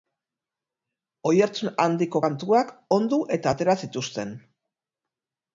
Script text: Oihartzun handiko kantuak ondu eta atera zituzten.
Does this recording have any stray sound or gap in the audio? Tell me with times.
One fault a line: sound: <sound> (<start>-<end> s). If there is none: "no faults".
no faults